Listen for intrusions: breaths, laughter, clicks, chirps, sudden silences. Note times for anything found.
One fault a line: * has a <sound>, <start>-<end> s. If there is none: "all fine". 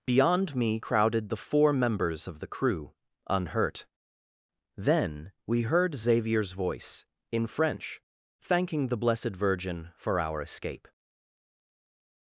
all fine